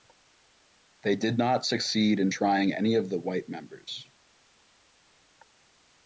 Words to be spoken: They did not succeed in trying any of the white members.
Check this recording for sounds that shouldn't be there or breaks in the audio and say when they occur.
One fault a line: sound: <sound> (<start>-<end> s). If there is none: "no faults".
no faults